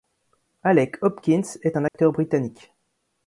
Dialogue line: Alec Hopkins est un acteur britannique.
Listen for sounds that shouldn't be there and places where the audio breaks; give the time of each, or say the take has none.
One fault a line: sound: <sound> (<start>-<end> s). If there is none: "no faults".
sound: dropout (1.9-1.9 s)